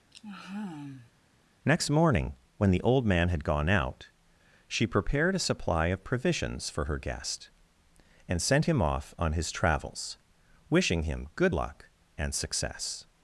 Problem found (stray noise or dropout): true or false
true